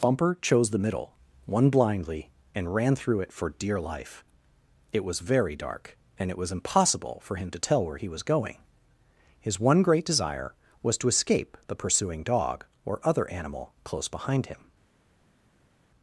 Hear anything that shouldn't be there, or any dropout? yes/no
no